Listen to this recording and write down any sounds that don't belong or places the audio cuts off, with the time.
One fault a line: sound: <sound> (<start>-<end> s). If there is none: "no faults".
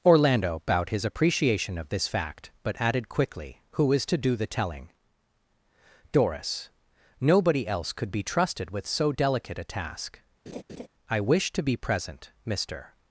sound: laugh (10.5-10.9 s)